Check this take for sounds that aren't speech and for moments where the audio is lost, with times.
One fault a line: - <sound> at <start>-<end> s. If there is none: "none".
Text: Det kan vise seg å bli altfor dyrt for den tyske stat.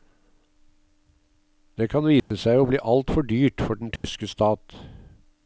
- dropout at 2.2-2.3 s
- dropout at 4.0-4.0 s